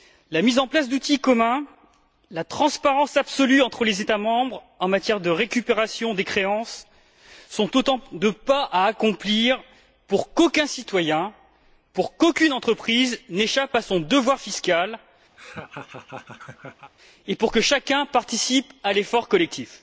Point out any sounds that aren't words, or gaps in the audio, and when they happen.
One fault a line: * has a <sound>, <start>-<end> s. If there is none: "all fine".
* has a laugh, 15.4-16.9 s